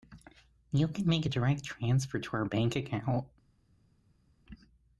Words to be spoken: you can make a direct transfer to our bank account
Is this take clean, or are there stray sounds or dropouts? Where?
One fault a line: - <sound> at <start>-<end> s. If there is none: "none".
none